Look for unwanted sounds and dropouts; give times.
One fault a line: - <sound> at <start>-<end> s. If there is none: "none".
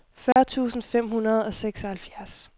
- dropout at 0.3-0.4 s